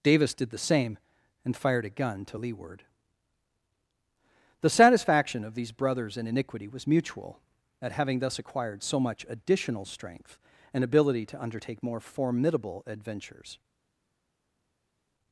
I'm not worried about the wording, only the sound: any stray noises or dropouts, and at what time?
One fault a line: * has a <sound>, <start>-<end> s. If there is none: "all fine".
all fine